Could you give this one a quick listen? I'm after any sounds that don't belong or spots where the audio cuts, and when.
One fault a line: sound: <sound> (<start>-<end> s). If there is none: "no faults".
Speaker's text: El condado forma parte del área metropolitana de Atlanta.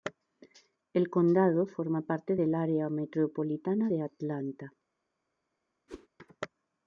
sound: whoosh (5.9-6.1 s)